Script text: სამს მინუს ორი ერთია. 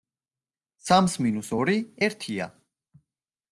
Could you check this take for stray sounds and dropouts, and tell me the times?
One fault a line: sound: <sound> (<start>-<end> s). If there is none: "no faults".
no faults